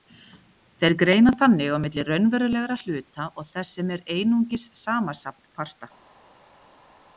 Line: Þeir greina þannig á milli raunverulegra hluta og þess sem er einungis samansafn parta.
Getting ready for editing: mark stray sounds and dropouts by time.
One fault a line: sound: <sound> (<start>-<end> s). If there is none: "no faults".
no faults